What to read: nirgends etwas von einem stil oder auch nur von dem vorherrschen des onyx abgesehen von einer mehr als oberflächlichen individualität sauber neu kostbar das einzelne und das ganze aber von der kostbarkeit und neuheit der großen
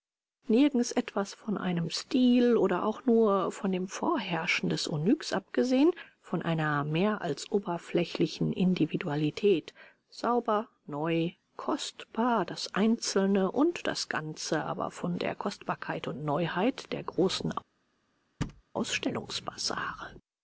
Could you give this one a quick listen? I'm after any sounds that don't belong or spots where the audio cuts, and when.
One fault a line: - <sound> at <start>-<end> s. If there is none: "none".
- thud at 18.4-18.6 s